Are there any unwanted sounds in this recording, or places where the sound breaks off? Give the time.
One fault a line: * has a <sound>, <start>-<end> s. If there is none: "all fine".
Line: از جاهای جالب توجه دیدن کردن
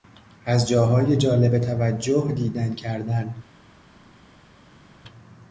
all fine